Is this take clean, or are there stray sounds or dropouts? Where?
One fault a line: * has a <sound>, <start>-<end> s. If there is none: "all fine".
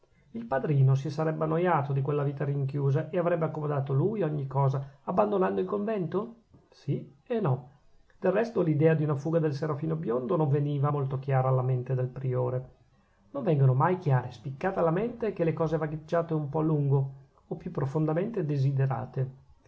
all fine